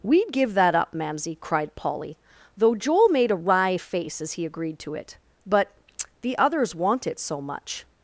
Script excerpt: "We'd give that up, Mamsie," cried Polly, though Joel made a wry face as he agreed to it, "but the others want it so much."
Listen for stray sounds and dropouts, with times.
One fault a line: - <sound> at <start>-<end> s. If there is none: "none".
none